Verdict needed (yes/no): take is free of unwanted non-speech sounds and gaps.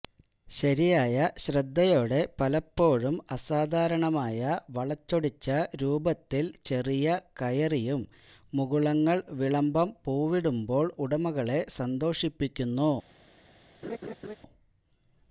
no